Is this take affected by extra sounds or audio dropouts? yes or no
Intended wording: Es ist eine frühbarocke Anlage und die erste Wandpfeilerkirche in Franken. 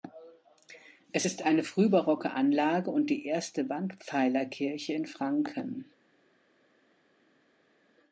no